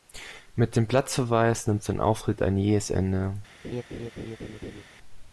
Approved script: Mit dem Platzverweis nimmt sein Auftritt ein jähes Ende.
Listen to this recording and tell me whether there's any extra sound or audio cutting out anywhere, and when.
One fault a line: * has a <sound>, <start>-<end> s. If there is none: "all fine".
* has a laugh, 3.6-4.8 s